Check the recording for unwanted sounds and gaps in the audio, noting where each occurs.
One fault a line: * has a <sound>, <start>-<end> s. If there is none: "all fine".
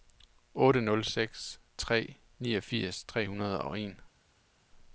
all fine